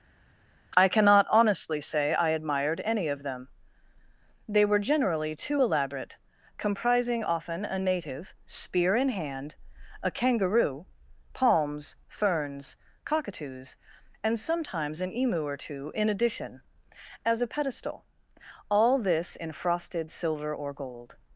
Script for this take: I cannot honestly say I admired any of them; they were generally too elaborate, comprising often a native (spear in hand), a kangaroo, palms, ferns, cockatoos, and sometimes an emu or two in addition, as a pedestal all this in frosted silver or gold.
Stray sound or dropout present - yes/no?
no